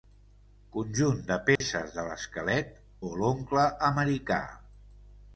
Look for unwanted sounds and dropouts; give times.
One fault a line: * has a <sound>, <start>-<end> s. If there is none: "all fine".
* has a dropout, 1.6-1.6 s